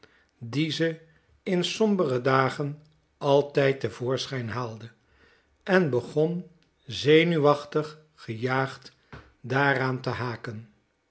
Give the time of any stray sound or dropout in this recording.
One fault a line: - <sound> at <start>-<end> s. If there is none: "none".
none